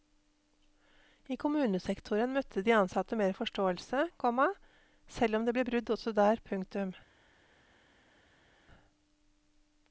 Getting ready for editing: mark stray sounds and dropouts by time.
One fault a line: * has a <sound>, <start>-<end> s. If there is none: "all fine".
all fine